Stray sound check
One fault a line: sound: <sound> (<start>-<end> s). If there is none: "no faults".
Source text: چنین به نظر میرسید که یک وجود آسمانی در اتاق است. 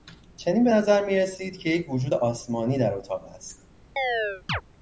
sound: chirp (4.0-4.6 s)